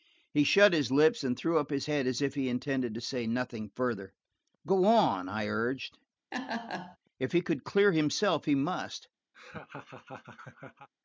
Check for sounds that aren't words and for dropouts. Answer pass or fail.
fail